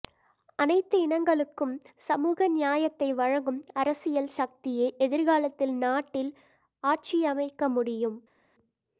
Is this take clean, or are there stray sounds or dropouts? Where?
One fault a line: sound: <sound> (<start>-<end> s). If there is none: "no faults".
no faults